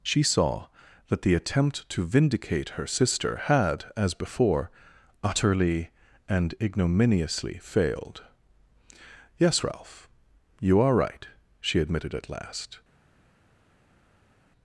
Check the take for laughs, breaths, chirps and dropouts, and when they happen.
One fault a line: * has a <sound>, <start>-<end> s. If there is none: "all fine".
all fine